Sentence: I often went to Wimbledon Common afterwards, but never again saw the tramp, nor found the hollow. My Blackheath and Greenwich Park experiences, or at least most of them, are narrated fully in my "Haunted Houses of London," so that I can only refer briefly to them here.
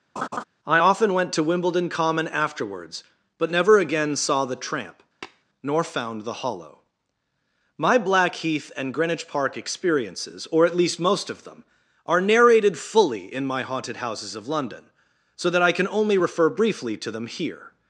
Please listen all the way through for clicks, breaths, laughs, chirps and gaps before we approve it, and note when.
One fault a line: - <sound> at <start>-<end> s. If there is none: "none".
- laugh at 0.2-0.4 s
- tap at 5.2-5.4 s